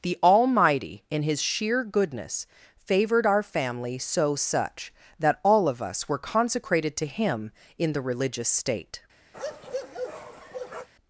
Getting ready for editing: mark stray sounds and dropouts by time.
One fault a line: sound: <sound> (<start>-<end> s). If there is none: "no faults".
sound: bark (9.3-10.9 s)